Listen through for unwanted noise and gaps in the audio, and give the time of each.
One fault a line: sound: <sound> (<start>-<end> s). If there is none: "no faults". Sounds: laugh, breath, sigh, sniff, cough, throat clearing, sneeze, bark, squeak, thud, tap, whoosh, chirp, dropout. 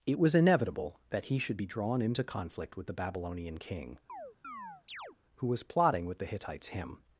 sound: chirp (4.1-5.2 s)